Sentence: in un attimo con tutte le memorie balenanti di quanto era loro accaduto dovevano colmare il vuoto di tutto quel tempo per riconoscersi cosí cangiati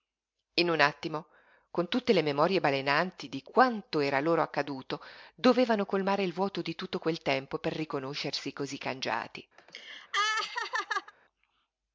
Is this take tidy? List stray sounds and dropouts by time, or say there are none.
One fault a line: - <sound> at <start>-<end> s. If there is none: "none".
- laugh at 9.6-11.1 s